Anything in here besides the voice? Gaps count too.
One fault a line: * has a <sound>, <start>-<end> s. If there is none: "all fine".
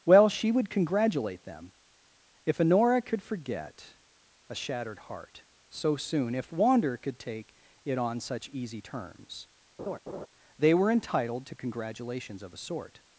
* has a laugh, 9.8-10.3 s